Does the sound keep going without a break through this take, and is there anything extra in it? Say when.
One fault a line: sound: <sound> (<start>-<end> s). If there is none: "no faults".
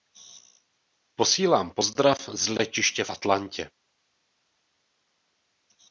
no faults